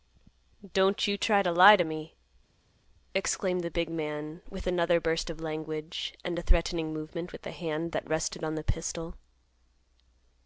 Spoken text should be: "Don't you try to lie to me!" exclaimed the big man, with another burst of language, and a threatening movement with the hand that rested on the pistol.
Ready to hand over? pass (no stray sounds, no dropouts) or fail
pass